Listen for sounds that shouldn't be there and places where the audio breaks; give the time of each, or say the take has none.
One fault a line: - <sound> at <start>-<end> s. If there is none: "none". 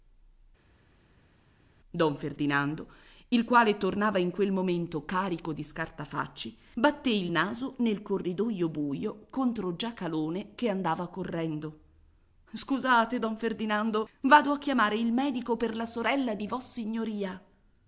none